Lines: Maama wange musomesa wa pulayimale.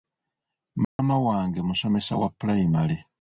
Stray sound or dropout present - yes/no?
yes